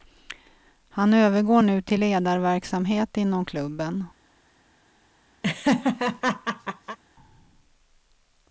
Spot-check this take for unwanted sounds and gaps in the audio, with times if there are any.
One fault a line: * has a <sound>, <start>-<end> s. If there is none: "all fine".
* has a laugh, 5.4-7.0 s